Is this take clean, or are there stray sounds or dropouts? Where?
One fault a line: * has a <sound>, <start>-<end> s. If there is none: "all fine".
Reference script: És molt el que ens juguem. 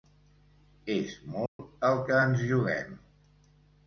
* has a dropout, 1.5-1.6 s